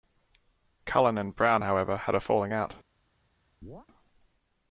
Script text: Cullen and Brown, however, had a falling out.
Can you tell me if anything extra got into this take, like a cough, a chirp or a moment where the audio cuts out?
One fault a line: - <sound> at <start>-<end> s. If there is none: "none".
- chirp at 3.6-3.9 s